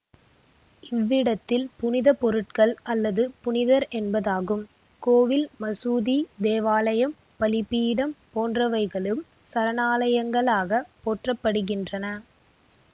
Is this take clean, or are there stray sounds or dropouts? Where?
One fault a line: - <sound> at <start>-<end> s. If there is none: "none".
none